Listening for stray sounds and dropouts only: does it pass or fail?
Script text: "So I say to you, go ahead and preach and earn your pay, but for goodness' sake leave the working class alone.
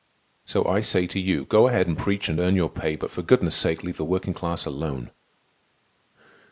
pass